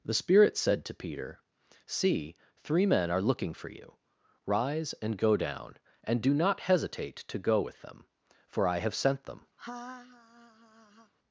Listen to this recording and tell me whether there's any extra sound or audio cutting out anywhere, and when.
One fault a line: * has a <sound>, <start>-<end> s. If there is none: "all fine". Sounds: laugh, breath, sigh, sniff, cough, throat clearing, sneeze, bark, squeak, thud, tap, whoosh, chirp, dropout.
* has a laugh, 9.6-11.1 s